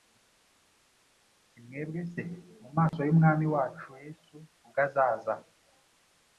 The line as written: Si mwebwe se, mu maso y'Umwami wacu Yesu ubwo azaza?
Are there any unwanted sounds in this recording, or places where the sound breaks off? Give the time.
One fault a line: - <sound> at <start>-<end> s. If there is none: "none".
- dropout at 2.9-2.9 s